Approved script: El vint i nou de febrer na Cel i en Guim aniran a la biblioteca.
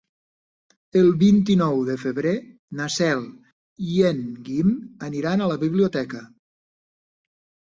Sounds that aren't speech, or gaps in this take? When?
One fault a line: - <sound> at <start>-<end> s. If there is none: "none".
none